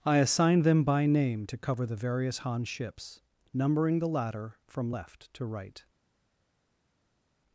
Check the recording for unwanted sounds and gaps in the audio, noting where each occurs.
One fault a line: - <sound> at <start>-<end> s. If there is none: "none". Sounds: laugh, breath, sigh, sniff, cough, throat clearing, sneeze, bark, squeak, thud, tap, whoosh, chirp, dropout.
none